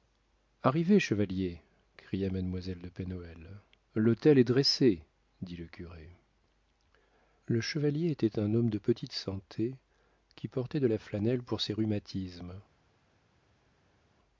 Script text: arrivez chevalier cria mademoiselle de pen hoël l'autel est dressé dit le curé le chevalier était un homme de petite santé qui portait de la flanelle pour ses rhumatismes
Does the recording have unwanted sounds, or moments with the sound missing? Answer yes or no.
no